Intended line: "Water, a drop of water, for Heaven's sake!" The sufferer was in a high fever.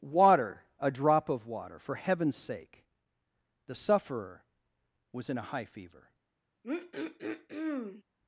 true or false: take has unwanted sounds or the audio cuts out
true